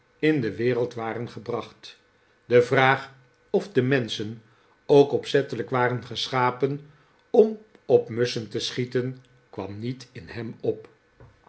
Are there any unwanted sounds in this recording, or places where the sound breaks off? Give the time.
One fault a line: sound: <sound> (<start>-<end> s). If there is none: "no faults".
no faults